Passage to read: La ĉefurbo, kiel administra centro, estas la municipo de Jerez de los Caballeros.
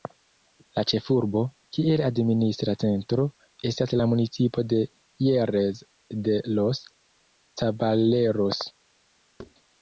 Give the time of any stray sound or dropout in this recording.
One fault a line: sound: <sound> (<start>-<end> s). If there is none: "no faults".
sound: thud (9.4-9.5 s)